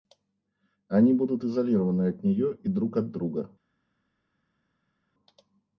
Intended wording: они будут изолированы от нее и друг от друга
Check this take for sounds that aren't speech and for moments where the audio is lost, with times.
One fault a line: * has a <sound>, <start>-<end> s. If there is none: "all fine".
all fine